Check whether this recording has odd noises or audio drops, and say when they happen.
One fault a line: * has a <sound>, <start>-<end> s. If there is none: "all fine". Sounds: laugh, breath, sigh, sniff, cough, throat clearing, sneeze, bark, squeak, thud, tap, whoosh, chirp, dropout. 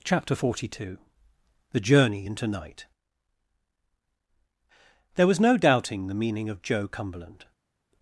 all fine